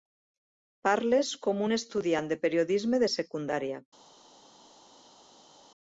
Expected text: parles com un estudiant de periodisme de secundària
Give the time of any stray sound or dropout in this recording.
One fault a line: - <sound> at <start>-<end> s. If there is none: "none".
none